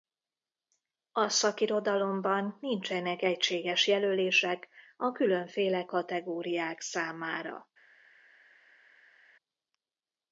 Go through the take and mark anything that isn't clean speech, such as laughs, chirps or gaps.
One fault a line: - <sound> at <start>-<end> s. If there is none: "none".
none